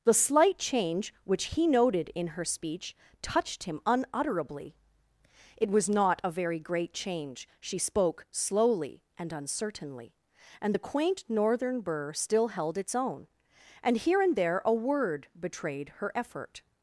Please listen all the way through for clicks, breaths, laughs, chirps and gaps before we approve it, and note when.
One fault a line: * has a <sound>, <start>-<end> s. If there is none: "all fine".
all fine